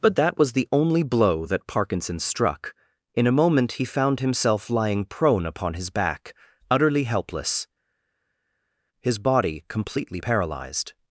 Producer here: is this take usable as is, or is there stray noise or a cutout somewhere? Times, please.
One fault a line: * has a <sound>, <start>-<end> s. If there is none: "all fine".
all fine